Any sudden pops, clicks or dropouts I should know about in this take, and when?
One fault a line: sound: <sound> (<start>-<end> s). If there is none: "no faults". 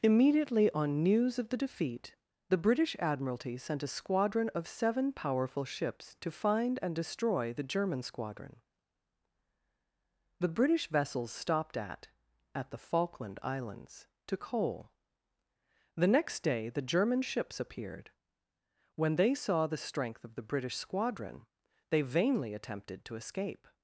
no faults